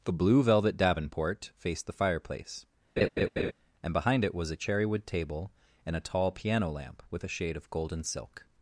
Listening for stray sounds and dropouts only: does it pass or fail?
fail